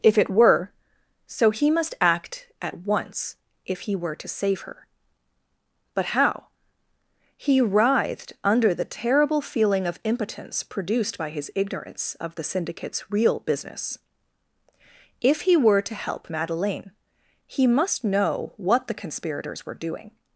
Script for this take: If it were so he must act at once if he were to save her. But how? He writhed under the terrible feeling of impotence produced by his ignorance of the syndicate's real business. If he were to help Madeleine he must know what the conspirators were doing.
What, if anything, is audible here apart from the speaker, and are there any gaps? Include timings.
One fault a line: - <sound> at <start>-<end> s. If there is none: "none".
none